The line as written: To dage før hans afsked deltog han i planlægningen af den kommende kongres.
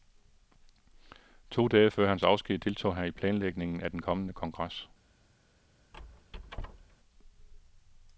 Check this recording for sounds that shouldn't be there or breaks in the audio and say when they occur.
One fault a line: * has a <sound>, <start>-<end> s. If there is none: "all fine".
* has a squeak, 5.9-7.0 s